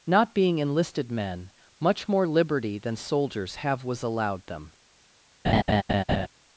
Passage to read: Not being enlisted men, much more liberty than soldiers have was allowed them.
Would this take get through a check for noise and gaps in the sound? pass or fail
fail